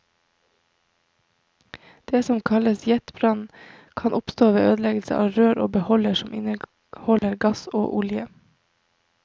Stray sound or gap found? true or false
true